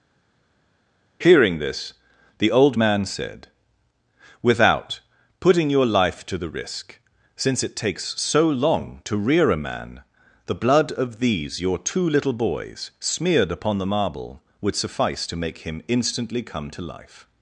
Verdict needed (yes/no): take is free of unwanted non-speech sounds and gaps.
yes